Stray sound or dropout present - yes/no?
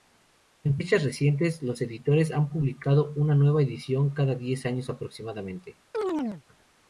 yes